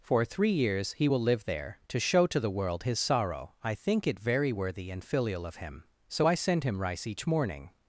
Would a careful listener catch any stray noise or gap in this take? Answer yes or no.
no